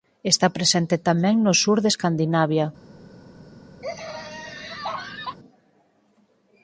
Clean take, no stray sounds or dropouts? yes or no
no